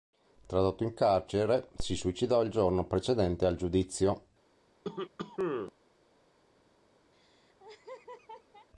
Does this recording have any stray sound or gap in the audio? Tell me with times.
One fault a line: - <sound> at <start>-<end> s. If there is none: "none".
- cough at 4.8-5.7 s
- laugh at 7.1-8.7 s